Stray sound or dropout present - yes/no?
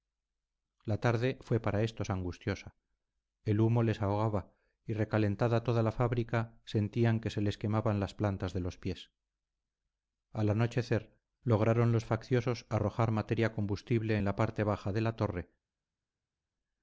no